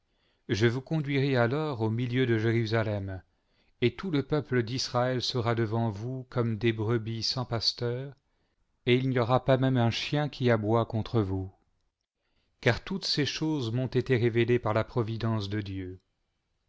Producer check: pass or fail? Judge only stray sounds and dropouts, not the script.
pass